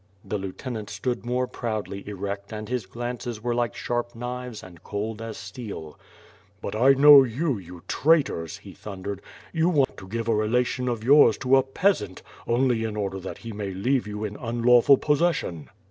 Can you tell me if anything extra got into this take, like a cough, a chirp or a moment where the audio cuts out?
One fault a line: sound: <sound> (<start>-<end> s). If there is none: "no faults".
sound: dropout (9.8-9.9 s)